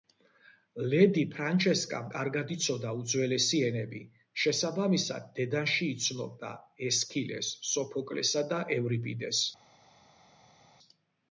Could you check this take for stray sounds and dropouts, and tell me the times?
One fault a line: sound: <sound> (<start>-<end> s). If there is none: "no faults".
no faults